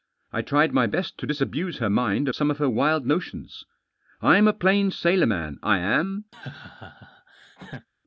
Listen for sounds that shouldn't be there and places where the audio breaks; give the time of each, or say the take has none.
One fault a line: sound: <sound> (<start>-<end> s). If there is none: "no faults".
sound: laugh (6.3-7.9 s)